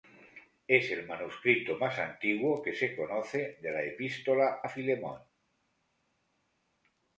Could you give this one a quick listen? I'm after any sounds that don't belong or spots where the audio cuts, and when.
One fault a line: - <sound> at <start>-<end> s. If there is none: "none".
none